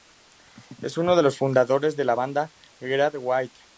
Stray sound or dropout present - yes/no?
no